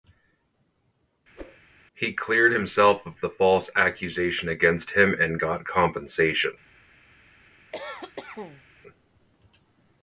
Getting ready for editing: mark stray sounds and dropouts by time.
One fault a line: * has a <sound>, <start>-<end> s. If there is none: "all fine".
* has a whoosh, 1.4-1.6 s
* has a cough, 7.7-8.6 s